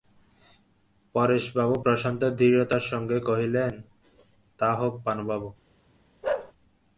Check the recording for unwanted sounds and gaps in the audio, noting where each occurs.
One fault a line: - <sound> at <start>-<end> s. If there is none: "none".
- bark at 6.2-6.5 s